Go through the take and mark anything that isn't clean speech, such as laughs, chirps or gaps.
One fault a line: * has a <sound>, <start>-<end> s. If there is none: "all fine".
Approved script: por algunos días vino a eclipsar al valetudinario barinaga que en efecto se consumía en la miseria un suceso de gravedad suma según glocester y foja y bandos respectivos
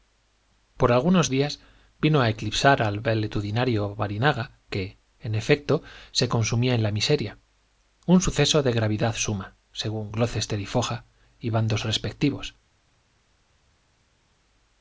all fine